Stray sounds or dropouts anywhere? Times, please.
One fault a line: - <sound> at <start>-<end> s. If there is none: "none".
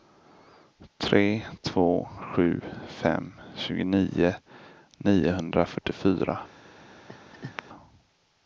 - laugh at 7.1-7.6 s